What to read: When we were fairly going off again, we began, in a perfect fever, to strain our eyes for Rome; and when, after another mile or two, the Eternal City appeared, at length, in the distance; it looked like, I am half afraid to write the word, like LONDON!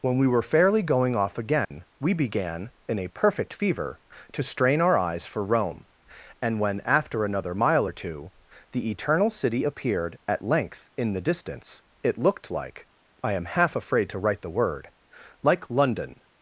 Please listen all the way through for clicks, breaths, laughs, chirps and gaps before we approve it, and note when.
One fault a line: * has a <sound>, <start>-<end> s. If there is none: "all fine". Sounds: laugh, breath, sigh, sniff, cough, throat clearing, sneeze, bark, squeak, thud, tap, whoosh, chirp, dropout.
* has a dropout, 1.6-1.7 s